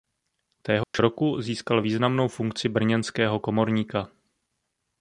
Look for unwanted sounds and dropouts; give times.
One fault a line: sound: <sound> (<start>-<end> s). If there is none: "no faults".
sound: dropout (0.8-0.9 s)